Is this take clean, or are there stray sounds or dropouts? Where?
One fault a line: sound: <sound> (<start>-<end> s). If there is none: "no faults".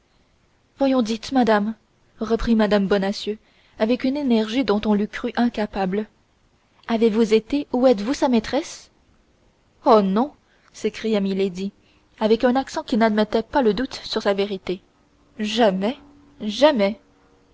no faults